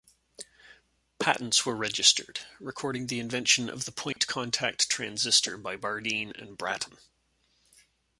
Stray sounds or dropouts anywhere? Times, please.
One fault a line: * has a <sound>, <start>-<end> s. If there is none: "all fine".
* has a dropout, 4.1-4.2 s